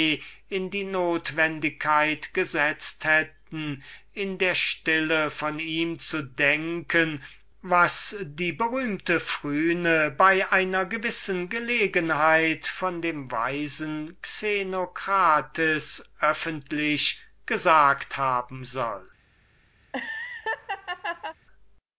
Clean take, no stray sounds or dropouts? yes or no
no